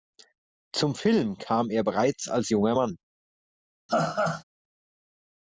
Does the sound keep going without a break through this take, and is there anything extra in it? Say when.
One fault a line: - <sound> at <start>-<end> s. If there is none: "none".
- laugh at 3.9-4.4 s